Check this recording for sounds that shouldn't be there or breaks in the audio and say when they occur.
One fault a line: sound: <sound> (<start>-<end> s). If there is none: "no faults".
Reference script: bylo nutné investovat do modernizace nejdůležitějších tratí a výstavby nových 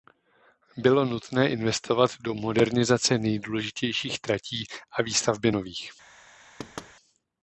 sound: thud (6.6-6.9 s)